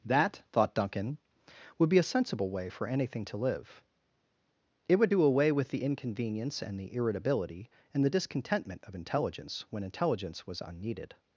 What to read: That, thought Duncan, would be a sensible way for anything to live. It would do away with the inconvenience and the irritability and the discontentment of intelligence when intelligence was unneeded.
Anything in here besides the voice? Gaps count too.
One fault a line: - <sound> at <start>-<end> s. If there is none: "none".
none